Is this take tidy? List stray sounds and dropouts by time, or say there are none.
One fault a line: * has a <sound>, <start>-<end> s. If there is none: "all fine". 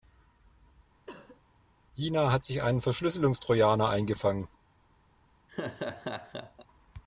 * has a cough, 1.1-1.4 s
* has a laugh, 5.5-6.7 s